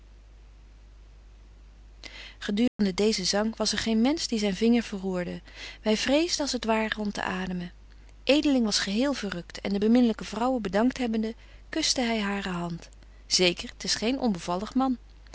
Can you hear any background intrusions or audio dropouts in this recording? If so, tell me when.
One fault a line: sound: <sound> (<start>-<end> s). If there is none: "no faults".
sound: dropout (2.7-2.8 s)